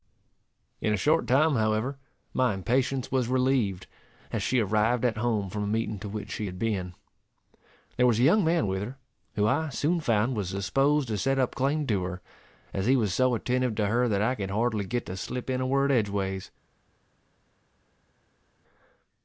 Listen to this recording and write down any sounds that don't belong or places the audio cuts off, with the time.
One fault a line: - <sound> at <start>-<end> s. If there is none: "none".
none